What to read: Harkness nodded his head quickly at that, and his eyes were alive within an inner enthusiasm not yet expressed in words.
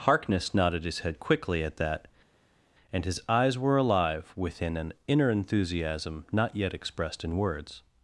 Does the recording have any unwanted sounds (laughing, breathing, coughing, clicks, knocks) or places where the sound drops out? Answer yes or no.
no